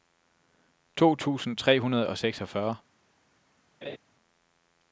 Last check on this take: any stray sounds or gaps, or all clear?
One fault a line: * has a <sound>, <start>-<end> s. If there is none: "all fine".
* has a laugh, 3.8-4.0 s